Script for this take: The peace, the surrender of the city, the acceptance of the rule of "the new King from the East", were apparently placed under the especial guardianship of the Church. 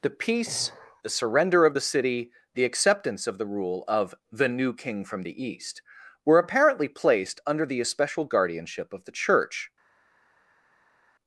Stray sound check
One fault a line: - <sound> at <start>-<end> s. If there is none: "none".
none